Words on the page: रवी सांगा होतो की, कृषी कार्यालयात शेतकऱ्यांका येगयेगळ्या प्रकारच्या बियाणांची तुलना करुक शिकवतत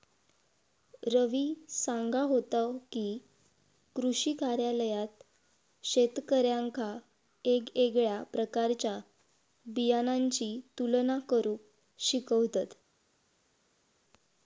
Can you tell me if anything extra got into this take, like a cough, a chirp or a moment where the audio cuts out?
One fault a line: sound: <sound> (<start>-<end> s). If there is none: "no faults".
no faults